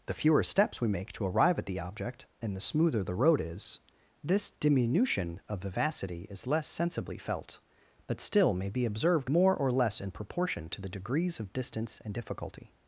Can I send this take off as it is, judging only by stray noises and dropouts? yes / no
yes